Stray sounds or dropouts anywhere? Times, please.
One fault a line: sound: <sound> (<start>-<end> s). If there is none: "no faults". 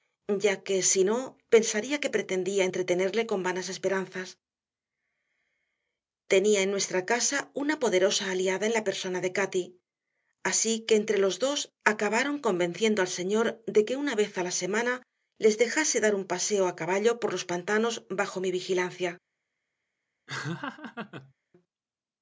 sound: laugh (20.3-21.3 s)